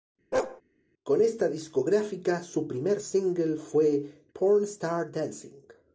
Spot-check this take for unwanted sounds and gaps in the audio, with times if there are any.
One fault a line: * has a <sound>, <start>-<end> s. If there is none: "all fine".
* has a bark, 0.3-0.6 s